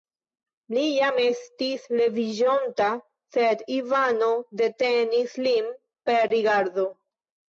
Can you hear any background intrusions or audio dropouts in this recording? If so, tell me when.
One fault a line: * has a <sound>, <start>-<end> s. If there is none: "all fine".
all fine